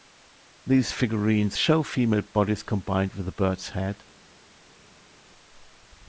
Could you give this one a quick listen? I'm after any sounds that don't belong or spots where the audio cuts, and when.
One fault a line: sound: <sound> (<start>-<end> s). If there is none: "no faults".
no faults